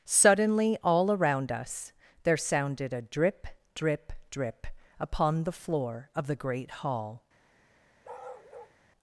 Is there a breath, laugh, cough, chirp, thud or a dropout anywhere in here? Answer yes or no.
yes